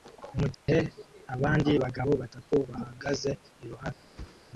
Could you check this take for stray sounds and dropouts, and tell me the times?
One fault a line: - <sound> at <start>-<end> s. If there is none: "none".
- dropout at 0.5-0.7 s
- whoosh at 4.1-4.4 s